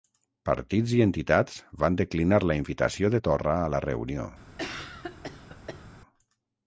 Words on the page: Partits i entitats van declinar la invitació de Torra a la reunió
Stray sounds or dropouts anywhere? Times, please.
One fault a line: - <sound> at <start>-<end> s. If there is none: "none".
- cough at 4.6-5.9 s